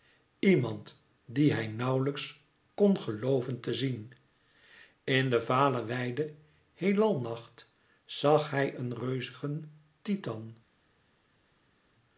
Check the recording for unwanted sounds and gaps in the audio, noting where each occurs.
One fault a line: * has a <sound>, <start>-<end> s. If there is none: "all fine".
all fine